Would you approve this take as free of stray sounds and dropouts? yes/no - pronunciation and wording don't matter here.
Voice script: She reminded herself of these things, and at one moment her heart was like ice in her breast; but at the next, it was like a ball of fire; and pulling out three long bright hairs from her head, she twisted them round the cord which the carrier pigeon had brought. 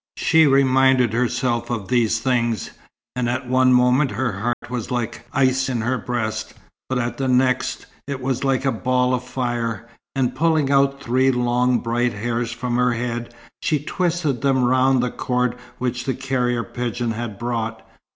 no